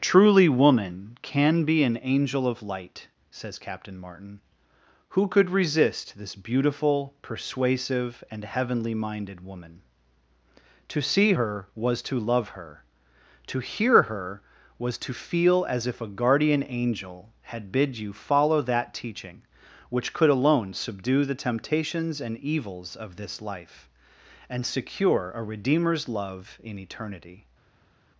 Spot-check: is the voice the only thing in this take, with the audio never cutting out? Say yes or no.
yes